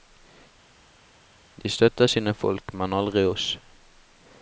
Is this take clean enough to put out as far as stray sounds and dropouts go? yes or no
yes